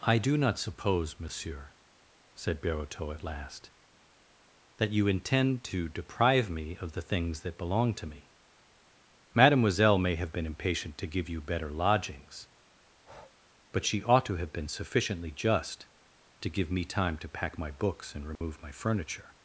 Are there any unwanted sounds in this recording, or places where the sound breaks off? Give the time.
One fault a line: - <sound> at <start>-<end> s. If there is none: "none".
- breath at 12.9-13.4 s
- dropout at 18.4-18.4 s